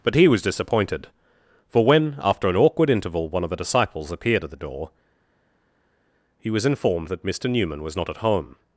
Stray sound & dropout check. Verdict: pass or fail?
pass